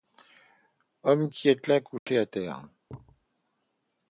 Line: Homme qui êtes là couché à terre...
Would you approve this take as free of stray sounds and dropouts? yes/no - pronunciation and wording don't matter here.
no